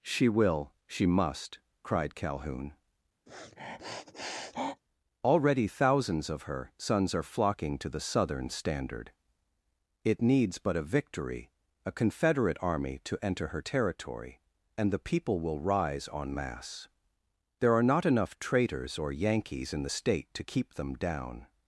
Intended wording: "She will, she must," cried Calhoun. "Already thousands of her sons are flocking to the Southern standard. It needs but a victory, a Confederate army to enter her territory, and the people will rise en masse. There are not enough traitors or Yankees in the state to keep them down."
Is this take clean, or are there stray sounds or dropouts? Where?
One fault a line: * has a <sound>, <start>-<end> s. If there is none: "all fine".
* has a sniff, 3.3-4.8 s